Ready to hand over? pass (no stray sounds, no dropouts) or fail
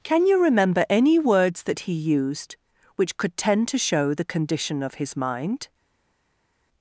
pass